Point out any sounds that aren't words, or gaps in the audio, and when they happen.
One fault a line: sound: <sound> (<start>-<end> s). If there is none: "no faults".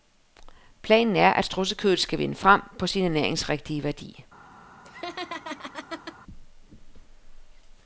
sound: laugh (4.8-6.2 s)